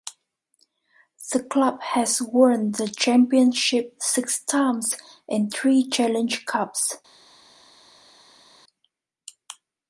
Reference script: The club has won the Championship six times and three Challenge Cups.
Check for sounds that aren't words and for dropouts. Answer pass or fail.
pass